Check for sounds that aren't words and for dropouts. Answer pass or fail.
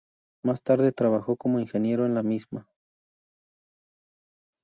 pass